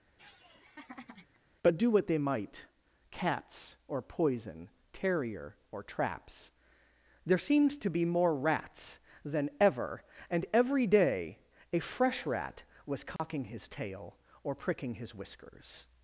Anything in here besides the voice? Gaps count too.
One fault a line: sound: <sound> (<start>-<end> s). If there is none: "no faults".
sound: laugh (0.2-1.4 s)
sound: dropout (13.2-13.2 s)